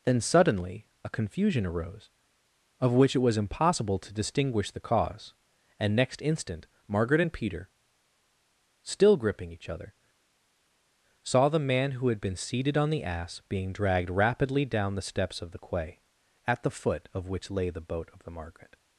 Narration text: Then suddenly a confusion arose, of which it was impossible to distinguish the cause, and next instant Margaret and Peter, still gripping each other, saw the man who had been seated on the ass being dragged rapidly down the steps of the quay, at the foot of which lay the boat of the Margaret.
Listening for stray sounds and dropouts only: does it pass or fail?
pass